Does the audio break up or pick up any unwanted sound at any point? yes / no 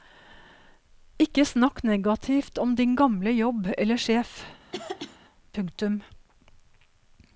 yes